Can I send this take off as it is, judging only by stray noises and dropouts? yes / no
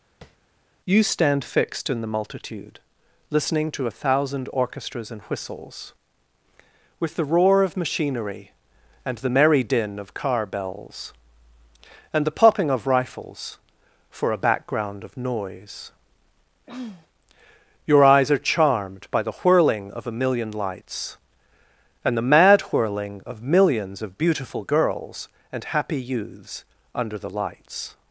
no